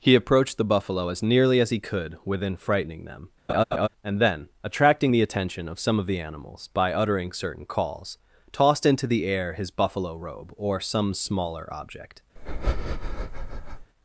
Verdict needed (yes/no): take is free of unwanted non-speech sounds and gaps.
no